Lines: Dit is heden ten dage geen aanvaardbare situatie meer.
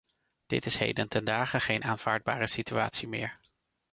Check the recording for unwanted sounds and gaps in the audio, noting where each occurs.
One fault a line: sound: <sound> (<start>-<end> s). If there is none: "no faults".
no faults